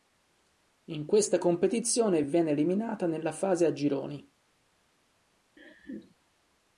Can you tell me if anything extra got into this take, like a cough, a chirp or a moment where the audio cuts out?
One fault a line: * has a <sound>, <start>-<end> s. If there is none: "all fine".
* has a laugh, 5.6-6.2 s